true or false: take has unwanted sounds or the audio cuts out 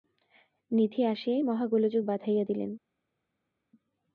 false